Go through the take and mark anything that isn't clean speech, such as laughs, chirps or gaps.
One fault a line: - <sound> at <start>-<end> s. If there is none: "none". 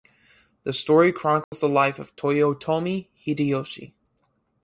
- dropout at 1.4-1.5 s